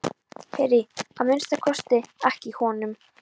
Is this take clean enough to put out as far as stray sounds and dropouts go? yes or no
yes